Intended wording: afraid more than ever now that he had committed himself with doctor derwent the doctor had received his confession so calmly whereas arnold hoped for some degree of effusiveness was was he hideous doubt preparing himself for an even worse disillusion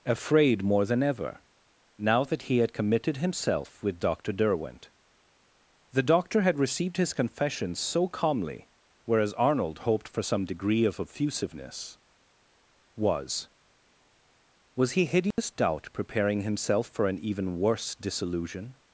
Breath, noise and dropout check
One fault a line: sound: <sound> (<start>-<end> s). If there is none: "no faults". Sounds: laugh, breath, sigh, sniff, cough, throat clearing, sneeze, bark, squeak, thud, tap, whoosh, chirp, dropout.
sound: dropout (15.3-15.4 s)